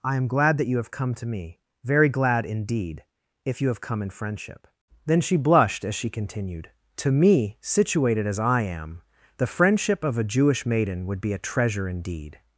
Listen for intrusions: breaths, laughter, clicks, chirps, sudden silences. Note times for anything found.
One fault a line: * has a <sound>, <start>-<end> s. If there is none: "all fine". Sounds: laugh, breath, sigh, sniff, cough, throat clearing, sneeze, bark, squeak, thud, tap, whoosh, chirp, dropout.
all fine